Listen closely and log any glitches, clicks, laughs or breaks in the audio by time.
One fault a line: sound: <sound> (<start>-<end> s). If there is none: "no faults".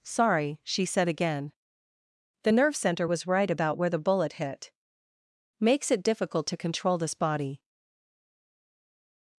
no faults